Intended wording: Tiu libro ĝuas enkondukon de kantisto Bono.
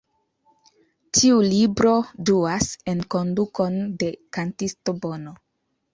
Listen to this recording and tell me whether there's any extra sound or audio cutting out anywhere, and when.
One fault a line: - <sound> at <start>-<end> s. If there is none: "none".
none